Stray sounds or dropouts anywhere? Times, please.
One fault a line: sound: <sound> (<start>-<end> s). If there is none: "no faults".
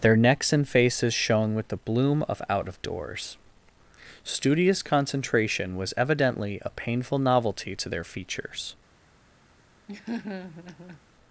sound: laugh (9.9-11.0 s)